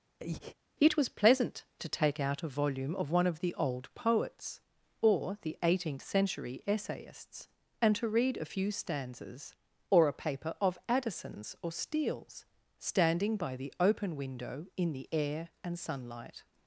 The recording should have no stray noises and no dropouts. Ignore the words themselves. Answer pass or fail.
fail